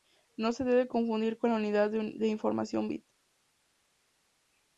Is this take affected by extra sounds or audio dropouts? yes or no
no